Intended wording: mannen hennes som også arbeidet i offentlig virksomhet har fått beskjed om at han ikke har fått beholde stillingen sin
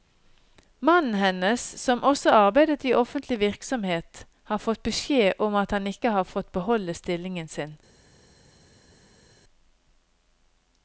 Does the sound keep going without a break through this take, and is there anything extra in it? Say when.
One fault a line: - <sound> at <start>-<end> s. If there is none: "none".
none